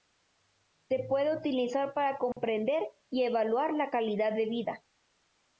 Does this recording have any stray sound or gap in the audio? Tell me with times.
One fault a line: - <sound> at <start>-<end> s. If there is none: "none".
- dropout at 2.3-2.4 s